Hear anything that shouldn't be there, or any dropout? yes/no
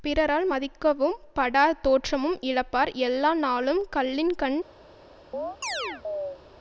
yes